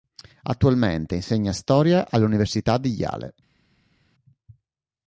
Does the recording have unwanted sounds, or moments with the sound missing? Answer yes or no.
no